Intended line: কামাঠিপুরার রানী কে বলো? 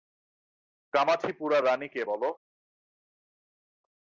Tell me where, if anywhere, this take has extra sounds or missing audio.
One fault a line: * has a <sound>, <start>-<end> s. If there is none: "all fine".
all fine